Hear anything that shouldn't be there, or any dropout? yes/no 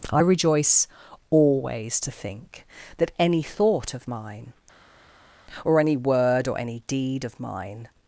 no